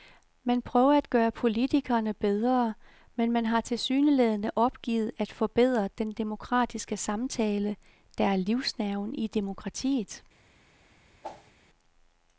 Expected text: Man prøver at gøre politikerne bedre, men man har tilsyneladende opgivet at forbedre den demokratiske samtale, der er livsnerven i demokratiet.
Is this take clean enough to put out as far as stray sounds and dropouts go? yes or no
no